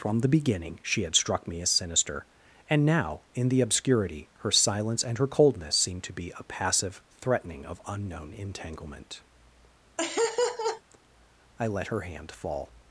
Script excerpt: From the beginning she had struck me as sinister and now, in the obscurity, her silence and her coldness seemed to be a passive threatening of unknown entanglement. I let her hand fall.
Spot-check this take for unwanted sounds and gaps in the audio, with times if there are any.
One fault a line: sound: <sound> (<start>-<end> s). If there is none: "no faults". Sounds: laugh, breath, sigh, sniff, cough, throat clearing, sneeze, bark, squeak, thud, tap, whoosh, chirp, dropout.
sound: laugh (10.0-10.8 s)